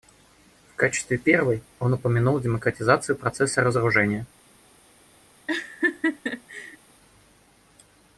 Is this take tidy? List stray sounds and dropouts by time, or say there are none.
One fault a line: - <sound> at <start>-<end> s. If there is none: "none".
- laugh at 5.5-6.8 s